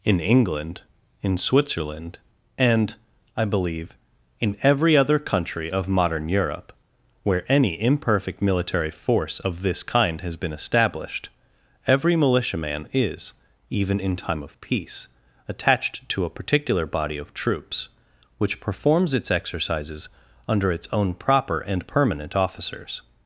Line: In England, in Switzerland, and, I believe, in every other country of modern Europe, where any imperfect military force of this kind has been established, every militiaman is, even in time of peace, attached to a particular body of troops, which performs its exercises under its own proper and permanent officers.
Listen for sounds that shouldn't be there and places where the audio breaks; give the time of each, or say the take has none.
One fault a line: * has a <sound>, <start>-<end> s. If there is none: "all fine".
all fine